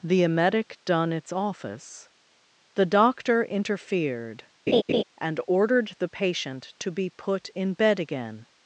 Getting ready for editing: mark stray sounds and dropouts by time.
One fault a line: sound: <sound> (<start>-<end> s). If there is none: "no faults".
sound: laugh (4.7-5.0 s)